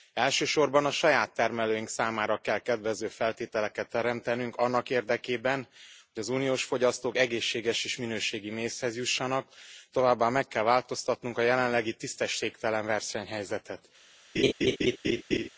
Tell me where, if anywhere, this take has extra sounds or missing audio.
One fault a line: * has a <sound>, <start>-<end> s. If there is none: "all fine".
* has a laugh, 14.4-15.5 s